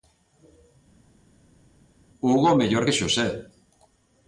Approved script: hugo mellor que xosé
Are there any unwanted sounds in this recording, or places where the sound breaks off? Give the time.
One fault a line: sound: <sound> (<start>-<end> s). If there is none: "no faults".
no faults